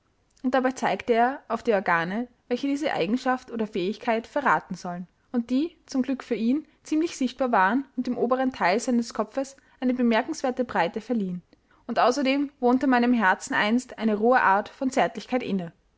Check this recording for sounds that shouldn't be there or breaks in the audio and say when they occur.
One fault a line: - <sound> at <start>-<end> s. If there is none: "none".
none